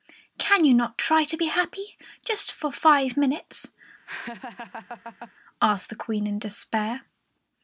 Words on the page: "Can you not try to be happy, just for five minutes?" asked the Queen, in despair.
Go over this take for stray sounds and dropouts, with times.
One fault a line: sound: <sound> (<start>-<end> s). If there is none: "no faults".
sound: laugh (4.1-5.3 s)